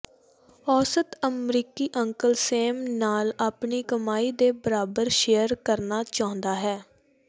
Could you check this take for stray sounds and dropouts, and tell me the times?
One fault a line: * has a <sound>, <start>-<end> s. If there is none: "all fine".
all fine